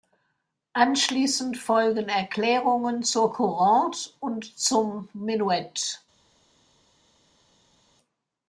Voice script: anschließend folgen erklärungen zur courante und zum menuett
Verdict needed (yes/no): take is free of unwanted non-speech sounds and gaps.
yes